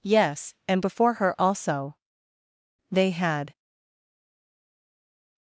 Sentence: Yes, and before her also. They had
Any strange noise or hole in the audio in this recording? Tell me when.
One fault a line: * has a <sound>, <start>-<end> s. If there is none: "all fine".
all fine